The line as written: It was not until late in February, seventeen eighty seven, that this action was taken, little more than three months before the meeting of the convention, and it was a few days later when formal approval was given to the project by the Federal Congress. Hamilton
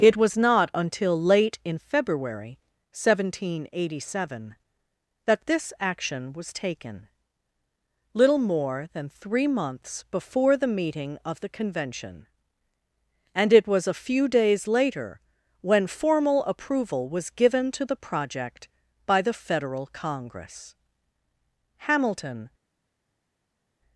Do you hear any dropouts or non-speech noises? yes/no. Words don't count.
no